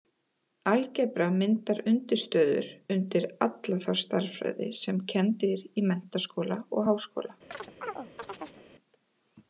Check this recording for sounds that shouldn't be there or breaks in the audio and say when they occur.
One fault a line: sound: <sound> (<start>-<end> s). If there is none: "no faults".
sound: chirp (7.5-8.6 s)